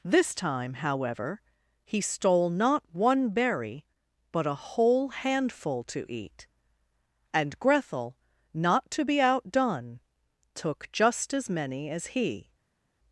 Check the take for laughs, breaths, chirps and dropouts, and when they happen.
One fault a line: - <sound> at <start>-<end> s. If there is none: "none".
none